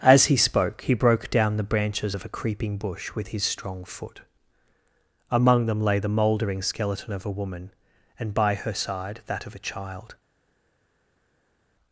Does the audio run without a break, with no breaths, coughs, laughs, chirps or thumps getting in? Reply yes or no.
yes